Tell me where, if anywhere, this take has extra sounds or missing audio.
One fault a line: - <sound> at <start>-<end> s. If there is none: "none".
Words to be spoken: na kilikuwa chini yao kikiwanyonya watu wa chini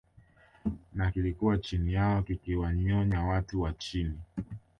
none